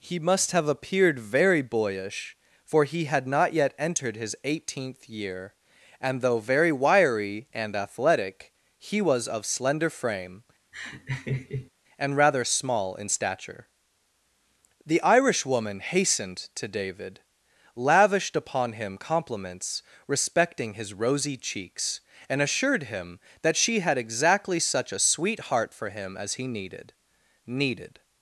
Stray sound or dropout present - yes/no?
yes